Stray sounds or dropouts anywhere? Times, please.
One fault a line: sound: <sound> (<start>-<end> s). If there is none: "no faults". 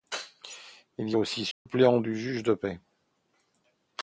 sound: dropout (1.5-1.7 s)